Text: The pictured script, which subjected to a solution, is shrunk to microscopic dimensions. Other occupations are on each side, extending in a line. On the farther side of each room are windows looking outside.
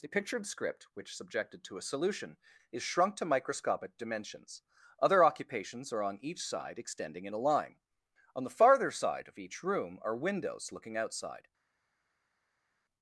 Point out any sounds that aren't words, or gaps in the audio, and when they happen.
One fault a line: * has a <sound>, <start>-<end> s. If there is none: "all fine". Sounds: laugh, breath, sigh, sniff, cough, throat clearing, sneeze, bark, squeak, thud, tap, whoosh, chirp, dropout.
all fine